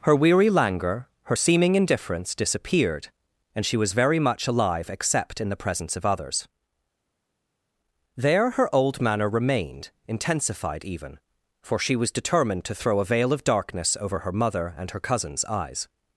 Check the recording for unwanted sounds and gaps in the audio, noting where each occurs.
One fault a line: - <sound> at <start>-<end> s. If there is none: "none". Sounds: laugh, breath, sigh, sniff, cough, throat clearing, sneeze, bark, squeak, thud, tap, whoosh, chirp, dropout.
none